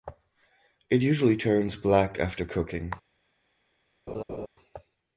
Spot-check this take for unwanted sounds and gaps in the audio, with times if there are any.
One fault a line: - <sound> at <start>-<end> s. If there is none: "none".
- laugh at 4.1-4.5 s